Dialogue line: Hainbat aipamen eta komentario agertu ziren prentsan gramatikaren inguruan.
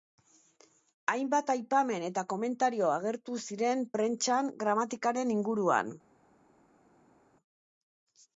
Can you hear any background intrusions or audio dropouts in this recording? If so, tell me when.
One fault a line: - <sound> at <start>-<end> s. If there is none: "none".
none